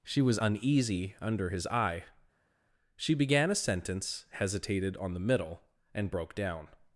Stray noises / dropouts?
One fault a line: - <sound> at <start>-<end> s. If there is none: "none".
none